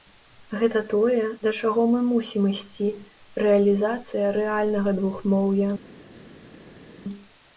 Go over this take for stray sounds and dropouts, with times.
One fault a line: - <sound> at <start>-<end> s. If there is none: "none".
none